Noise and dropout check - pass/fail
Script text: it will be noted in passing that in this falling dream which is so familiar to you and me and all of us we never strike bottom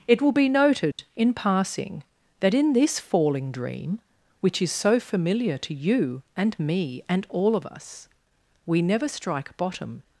fail